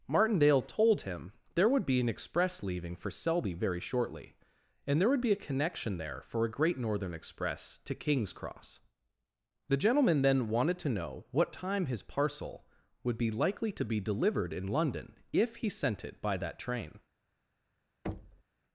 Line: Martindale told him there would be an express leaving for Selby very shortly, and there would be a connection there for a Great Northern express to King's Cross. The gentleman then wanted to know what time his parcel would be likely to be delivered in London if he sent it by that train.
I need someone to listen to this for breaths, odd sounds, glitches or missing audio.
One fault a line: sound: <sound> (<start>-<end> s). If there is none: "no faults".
sound: thud (18.0-18.4 s)